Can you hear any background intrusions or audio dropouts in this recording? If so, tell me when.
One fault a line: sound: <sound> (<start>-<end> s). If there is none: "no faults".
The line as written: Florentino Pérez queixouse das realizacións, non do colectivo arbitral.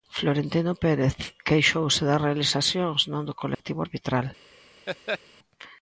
sound: dropout (3.5-3.6 s)
sound: laugh (4.9-5.2 s)